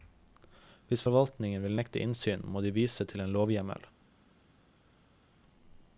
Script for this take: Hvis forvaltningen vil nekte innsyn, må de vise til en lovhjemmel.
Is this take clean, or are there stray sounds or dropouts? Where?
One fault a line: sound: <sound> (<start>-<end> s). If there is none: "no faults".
no faults